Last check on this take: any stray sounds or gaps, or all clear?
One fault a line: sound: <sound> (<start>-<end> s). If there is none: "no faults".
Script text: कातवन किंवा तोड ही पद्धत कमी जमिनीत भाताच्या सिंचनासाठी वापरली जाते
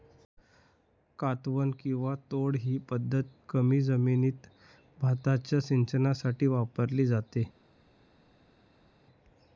no faults